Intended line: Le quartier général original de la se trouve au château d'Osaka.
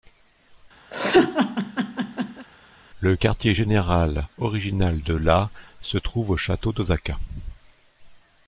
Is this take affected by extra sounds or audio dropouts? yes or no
yes